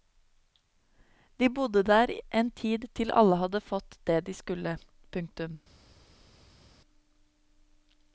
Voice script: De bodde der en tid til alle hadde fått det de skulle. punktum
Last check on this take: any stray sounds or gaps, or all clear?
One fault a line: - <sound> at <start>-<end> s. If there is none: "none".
none